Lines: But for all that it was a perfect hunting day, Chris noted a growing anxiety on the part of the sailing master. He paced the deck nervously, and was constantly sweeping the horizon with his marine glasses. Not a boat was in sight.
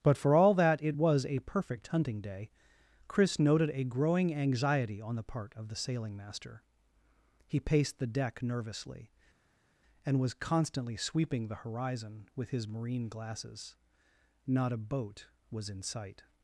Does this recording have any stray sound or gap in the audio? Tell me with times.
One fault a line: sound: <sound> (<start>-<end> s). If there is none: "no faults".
no faults